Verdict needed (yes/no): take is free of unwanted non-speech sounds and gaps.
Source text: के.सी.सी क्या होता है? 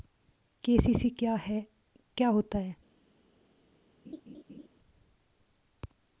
no